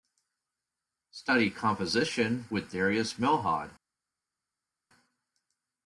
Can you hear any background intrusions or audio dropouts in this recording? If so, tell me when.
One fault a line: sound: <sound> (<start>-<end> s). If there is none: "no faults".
no faults